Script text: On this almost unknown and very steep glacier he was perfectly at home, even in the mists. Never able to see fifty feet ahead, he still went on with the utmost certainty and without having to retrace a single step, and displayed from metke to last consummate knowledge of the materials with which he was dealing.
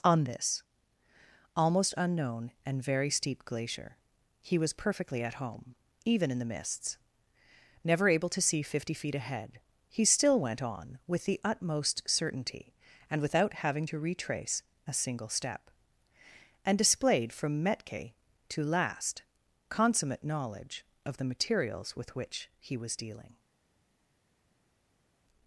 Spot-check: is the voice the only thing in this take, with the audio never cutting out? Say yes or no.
yes